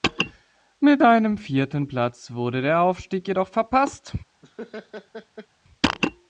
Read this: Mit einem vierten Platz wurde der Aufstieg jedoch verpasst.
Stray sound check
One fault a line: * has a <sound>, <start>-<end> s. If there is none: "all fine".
* has a laugh, 4.4-5.5 s